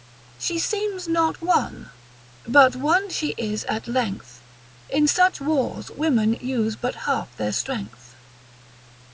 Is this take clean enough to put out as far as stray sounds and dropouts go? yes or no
yes